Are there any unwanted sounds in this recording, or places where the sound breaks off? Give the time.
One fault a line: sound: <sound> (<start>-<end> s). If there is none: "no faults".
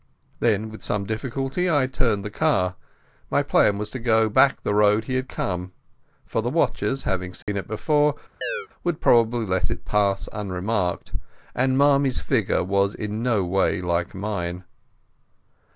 sound: dropout (7.4-7.5 s)
sound: chirp (8.4-8.7 s)